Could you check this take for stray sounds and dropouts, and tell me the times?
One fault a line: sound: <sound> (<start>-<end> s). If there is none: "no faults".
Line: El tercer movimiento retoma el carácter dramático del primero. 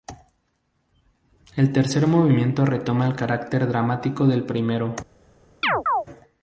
sound: chirp (5.6-6.1 s)